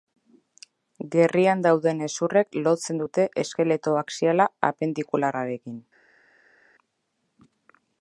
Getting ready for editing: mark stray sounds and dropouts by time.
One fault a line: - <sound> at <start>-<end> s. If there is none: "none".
none